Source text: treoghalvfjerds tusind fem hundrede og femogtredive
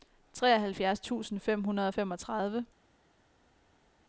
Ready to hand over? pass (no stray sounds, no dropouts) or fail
pass